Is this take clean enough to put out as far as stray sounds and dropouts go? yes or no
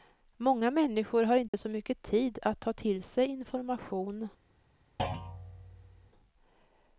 no